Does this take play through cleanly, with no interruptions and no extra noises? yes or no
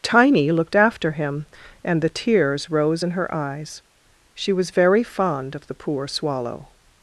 yes